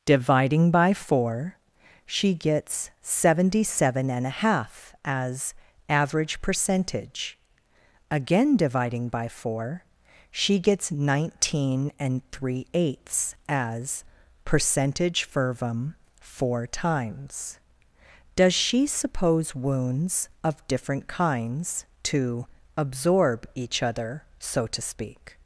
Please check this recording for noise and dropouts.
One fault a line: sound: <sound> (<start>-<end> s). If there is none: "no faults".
no faults